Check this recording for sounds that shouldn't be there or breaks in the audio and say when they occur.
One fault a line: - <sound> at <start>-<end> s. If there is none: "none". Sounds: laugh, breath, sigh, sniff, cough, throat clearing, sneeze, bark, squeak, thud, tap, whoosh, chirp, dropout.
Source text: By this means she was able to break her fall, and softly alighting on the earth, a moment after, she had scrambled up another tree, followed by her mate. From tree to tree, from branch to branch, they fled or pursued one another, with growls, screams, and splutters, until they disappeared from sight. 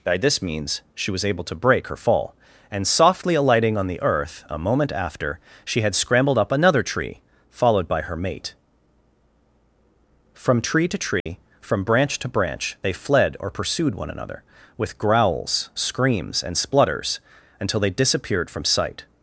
- dropout at 11.2-11.3 s